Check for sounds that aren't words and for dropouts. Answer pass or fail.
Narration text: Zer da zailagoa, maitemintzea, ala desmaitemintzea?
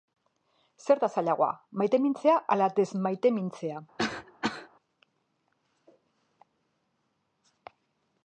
fail